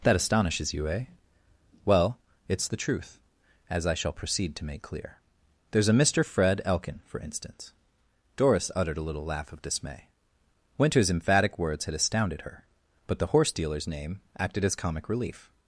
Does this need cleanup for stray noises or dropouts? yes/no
no